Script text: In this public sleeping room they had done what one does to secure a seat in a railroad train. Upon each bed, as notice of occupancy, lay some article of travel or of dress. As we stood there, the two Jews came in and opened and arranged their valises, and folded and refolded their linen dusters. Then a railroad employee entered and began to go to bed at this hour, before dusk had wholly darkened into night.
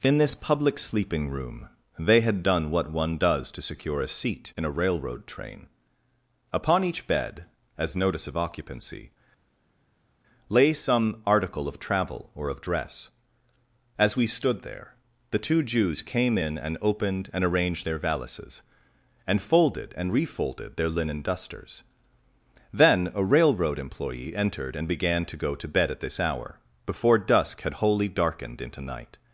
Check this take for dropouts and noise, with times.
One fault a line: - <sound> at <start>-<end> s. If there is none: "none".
none